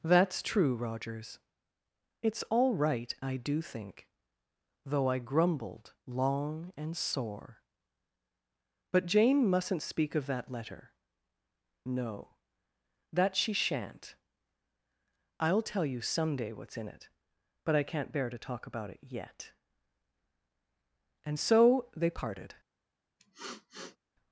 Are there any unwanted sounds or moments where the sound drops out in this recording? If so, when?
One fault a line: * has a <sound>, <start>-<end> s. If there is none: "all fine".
* has a sniff, 23.2-24.0 s